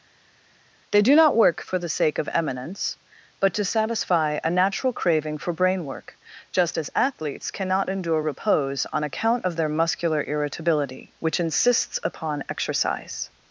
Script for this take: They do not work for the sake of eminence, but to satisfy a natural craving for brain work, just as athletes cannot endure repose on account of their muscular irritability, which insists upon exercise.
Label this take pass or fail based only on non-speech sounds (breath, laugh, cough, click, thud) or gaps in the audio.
pass